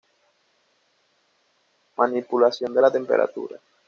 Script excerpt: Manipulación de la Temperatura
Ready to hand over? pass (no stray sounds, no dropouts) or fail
pass